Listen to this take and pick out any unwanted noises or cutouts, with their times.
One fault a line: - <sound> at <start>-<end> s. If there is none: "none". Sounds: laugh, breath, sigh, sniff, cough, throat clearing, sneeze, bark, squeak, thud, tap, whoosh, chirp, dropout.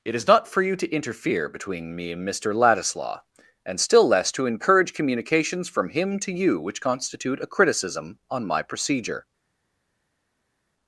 none